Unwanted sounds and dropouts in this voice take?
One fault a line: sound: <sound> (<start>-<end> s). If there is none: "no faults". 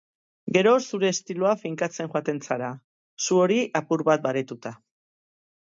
no faults